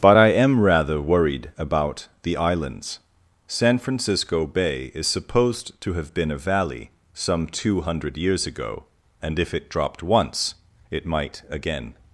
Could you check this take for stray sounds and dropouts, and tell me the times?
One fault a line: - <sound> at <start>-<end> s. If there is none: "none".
none